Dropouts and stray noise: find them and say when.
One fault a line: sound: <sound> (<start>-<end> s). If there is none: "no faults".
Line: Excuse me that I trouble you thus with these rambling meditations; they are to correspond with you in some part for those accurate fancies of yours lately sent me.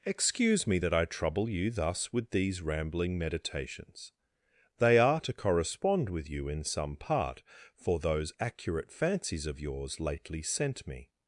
no faults